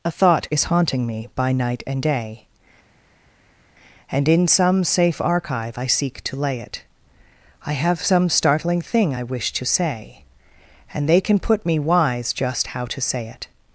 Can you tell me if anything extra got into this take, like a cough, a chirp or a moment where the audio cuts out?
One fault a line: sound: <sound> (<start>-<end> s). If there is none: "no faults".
no faults